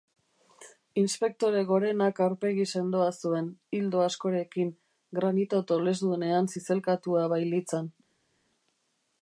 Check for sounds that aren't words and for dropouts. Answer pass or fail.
pass